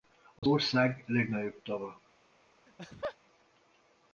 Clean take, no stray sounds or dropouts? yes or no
no